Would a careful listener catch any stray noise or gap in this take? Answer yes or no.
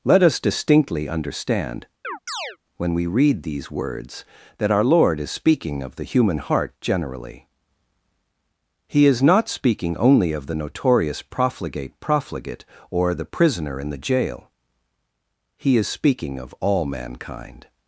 yes